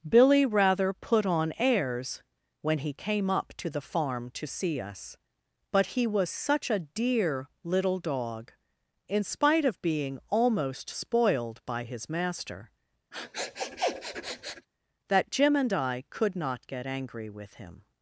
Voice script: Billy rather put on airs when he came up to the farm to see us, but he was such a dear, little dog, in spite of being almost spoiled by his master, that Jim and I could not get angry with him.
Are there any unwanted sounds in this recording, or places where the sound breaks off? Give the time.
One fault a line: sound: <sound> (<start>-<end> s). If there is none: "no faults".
sound: sniff (13.1-14.7 s)